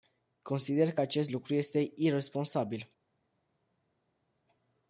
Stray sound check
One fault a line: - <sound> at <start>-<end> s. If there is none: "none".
none